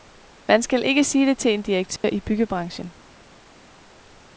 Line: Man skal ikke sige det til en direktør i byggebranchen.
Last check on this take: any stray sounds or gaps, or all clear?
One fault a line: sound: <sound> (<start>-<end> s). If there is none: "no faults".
sound: dropout (2.0-2.0 s)